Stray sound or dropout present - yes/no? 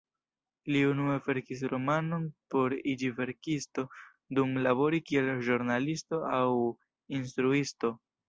no